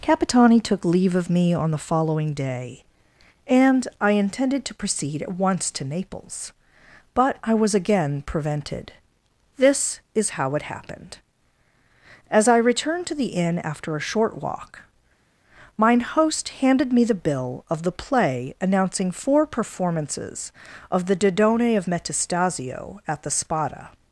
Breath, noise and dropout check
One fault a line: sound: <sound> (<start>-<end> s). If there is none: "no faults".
no faults